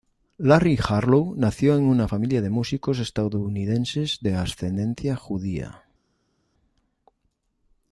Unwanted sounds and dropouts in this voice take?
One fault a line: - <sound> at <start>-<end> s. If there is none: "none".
none